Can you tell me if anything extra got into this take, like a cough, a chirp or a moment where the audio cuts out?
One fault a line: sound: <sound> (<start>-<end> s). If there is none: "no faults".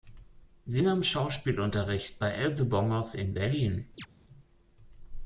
sound: chirp (4.0-4.1 s)